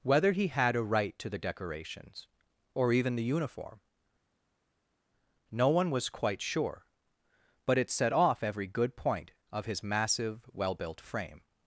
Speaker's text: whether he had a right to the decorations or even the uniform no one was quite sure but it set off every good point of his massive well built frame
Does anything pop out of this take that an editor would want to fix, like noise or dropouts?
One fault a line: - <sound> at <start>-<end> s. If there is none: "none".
none